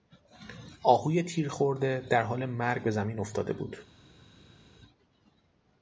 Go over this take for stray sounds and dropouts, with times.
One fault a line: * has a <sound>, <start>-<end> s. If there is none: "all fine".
all fine